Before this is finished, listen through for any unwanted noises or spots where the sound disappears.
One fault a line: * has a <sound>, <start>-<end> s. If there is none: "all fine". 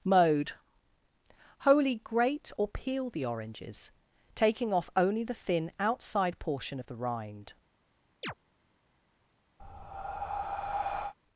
* has a chirp, 8.2-8.3 s
* has a breath, 9.6-11.1 s